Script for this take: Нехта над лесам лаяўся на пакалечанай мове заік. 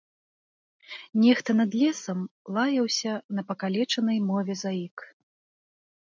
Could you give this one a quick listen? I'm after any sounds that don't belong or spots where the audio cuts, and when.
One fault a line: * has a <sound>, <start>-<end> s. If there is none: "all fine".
all fine